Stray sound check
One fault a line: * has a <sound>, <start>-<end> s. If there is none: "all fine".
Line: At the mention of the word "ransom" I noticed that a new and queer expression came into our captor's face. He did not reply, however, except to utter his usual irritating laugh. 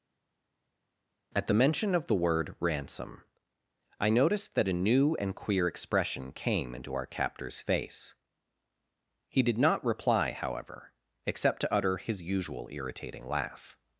all fine